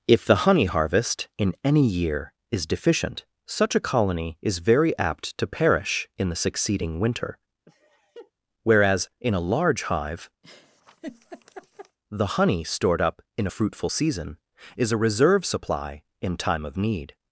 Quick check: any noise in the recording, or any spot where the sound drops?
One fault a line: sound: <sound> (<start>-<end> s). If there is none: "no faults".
sound: laugh (7.7-8.3 s)
sound: laugh (10.4-12.0 s)